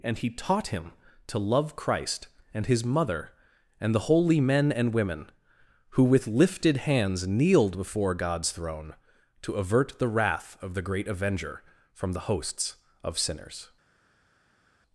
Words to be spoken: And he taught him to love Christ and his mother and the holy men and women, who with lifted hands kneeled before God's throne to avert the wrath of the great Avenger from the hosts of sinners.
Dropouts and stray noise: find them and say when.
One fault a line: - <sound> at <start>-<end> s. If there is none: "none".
none